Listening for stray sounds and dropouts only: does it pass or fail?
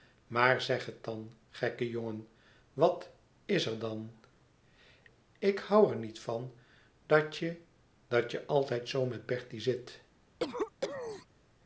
fail